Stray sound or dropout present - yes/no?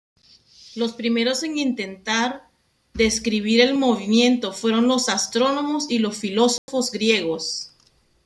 yes